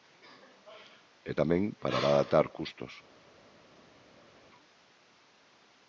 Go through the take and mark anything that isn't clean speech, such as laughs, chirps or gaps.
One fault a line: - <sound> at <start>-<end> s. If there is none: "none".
none